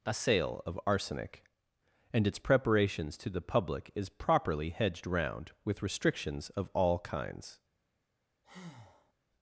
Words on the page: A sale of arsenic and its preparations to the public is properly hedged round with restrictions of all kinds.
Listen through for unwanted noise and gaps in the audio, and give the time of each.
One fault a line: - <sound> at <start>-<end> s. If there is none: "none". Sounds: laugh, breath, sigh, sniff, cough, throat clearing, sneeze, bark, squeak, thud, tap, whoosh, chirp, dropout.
- breath at 8.4-9.1 s